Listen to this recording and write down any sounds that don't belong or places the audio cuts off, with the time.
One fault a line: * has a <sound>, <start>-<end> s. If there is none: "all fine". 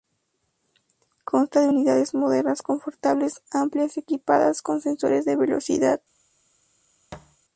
* has a thud, 7.1-7.4 s